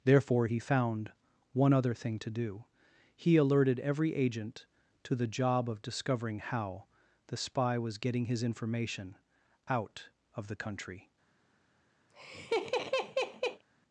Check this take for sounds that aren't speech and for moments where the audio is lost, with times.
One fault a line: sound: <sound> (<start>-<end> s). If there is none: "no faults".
sound: laugh (12.1-13.6 s)